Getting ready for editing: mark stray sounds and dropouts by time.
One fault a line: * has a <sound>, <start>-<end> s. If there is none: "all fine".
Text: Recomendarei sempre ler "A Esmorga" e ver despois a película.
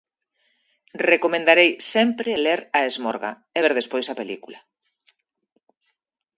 all fine